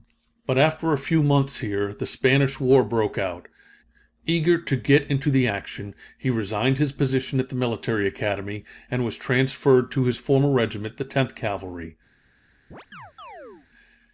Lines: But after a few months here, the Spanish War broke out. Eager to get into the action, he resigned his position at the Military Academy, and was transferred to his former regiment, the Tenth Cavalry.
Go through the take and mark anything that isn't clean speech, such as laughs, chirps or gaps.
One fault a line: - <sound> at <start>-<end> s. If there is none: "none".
- chirp at 12.7-13.7 s